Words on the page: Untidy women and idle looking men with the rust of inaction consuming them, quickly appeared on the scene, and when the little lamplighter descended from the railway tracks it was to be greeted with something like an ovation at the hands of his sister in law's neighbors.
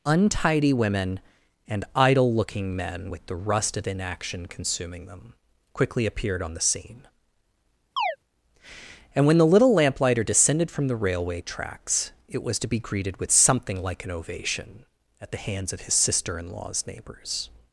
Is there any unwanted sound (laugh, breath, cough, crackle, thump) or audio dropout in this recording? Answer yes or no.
yes